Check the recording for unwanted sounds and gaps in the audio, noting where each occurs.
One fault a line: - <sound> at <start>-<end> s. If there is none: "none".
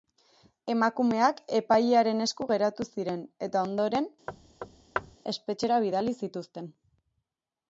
- thud at 4.3-5.2 s